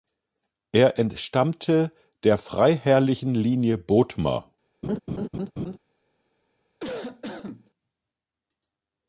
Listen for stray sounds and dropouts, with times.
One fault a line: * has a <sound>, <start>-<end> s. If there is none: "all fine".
* has a laugh, 4.8-5.8 s
* has a cough, 6.8-7.7 s